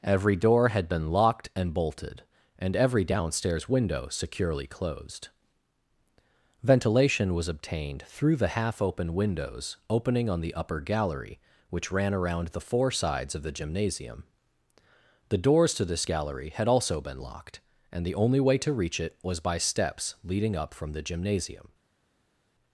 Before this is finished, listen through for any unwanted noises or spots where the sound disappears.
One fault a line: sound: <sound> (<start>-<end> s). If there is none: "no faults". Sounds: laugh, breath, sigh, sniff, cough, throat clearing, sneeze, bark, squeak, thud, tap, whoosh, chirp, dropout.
no faults